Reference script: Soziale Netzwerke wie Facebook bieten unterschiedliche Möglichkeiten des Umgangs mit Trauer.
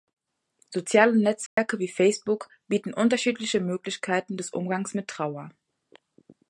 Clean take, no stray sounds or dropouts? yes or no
no